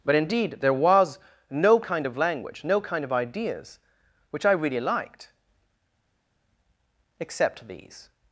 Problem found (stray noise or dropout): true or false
false